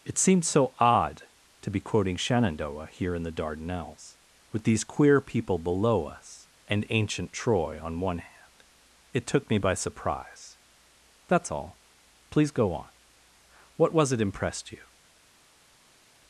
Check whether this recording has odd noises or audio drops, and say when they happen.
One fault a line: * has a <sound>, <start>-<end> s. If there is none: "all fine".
all fine